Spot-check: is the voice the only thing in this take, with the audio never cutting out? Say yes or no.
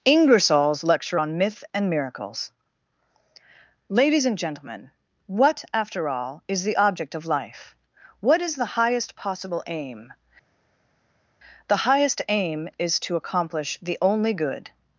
yes